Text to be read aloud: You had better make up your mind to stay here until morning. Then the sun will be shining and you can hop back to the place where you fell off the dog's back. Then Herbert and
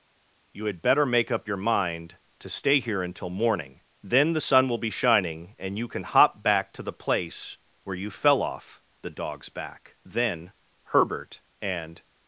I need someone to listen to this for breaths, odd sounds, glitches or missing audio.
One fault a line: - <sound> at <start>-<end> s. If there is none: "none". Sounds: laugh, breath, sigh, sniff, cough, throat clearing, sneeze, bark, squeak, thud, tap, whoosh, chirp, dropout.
none